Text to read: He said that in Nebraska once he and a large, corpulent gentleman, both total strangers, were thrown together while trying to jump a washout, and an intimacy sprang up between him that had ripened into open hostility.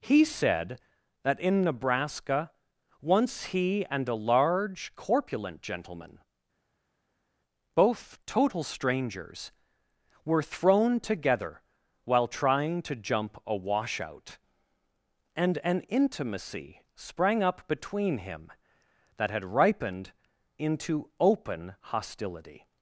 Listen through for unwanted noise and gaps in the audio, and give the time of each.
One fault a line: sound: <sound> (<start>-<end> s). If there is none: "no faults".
no faults